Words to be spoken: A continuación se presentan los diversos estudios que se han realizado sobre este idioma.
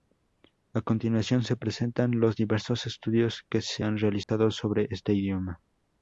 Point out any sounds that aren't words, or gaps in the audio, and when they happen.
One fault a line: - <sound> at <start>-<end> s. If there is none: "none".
- dropout at 4.2-4.3 s